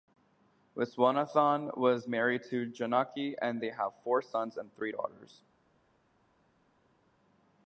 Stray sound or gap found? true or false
false